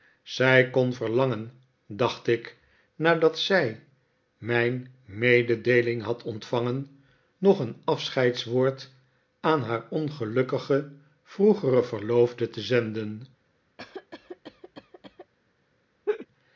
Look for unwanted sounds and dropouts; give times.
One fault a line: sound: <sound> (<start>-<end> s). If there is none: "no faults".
sound: cough (13.8-15.3 s)
sound: laugh (16.1-16.3 s)